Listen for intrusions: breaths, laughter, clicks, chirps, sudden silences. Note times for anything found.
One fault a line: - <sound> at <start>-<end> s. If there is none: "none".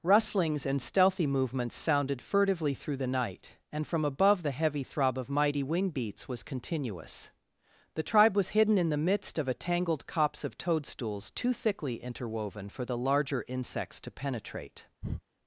- breath at 15.0-15.2 s